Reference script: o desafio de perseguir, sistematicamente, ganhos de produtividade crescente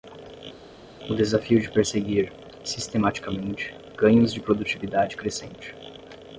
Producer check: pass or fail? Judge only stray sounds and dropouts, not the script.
pass